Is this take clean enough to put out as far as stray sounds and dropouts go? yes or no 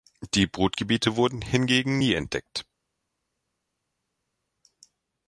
yes